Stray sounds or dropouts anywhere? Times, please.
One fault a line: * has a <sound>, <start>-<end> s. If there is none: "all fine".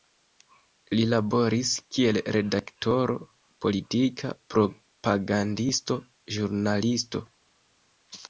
all fine